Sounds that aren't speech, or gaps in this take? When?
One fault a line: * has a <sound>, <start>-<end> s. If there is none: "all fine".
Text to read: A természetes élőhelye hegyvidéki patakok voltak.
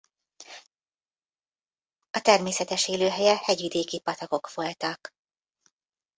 all fine